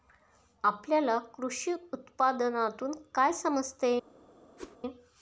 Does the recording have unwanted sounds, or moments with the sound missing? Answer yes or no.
yes